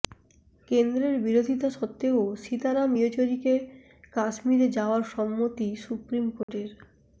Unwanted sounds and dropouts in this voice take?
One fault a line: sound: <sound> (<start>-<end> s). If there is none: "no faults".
sound: dropout (6.4-6.5 s)